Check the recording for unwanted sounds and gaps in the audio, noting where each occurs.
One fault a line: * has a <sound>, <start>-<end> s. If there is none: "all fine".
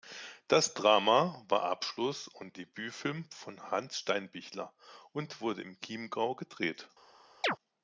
* has a chirp, 7.4-7.6 s